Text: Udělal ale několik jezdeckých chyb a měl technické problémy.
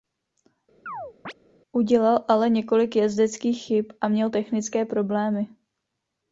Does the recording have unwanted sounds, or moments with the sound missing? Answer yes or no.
yes